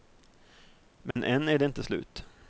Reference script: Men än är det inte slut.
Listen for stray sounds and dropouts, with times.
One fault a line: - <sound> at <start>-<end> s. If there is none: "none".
- dropout at 1.1-1.2 s